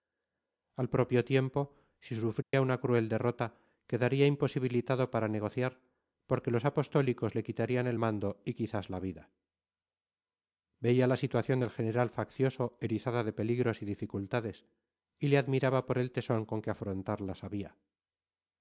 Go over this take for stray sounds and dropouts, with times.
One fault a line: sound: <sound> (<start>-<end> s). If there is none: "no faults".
sound: dropout (2.4-2.5 s)